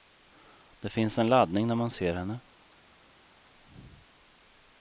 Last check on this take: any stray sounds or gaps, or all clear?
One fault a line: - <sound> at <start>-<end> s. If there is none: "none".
none